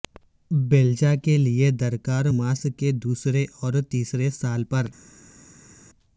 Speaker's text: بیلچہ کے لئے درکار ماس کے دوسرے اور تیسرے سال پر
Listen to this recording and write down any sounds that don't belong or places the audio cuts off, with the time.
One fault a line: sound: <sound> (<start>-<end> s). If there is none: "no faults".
no faults